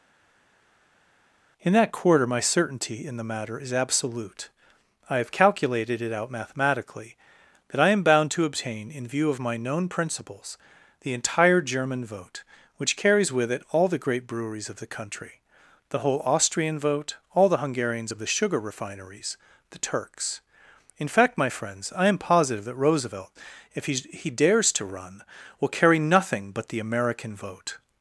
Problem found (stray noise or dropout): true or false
false